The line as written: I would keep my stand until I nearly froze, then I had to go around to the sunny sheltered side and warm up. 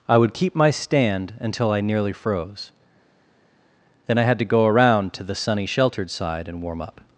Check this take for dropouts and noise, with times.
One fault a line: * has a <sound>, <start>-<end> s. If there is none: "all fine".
all fine